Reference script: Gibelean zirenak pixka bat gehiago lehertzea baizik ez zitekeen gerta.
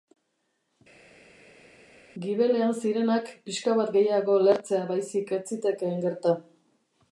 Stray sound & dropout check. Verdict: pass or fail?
pass